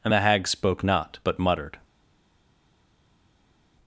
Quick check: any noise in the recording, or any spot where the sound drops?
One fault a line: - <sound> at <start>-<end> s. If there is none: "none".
none